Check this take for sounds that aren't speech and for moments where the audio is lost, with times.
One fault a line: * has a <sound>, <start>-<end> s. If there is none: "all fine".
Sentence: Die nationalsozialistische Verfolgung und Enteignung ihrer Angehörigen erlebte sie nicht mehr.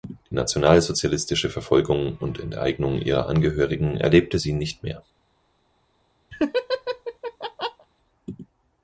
* has a laugh, 6.3-7.9 s